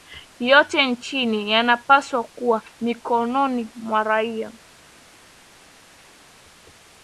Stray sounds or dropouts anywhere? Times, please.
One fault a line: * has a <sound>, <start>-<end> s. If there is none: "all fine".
all fine